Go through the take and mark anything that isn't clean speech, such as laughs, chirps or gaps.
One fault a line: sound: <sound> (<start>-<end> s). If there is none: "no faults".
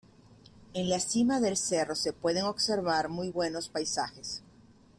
no faults